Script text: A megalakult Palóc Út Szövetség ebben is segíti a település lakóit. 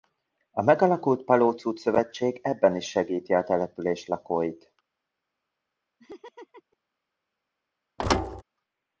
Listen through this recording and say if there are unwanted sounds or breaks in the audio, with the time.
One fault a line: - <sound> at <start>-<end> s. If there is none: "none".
- laugh at 6.0-6.8 s
- thud at 8.0-8.4 s